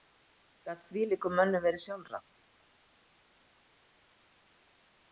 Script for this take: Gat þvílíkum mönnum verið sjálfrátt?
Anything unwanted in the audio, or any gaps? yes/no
no